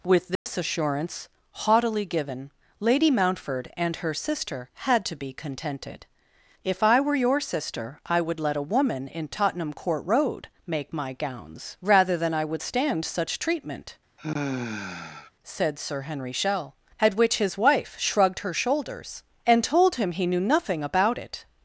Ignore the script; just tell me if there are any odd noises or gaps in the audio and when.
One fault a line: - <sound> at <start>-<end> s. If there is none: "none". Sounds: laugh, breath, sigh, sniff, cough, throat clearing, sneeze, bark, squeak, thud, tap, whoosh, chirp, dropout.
- dropout at 0.4-0.5 s
- sigh at 14.2-15.3 s